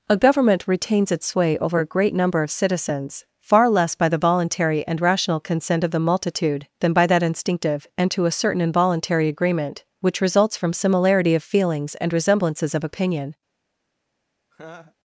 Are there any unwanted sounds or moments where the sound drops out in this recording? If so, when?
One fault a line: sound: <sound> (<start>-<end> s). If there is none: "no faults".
sound: laugh (14.5-15.0 s)